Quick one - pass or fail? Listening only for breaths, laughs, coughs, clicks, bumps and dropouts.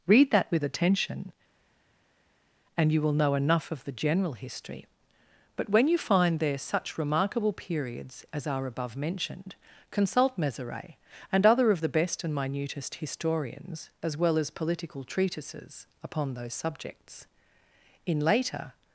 pass